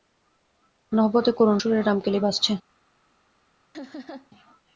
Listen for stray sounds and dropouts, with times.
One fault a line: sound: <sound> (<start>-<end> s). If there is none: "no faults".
sound: laugh (3.7-4.3 s)